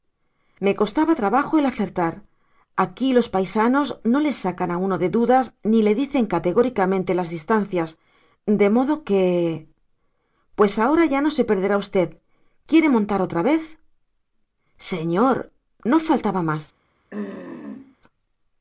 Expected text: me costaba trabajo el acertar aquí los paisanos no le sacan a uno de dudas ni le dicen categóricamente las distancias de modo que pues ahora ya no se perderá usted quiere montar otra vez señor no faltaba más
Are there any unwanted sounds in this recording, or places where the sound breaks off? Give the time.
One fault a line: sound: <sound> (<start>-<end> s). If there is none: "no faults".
sound: throat clearing (17.1-18.0 s)